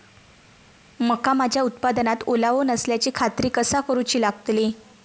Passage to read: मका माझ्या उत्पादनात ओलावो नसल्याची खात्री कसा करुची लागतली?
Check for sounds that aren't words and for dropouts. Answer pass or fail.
pass